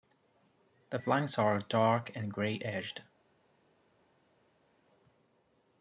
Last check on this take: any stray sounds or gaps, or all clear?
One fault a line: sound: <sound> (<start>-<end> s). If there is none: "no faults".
no faults